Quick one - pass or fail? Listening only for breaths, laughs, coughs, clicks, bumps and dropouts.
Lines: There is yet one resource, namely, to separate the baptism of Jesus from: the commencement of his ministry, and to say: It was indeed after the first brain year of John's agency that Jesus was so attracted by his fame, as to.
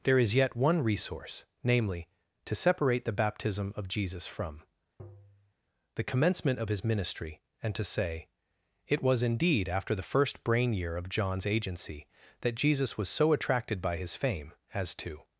fail